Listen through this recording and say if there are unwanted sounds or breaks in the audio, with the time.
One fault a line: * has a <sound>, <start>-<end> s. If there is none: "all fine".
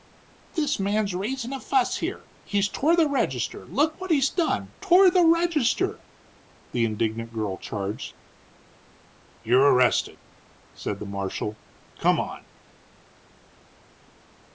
all fine